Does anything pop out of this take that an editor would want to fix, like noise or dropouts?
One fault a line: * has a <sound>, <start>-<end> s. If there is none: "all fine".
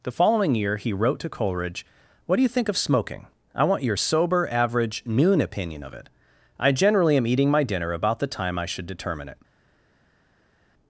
all fine